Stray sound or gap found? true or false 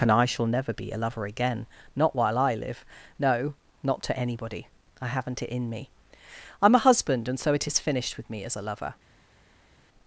false